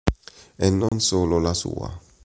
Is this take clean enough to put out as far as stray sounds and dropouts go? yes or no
no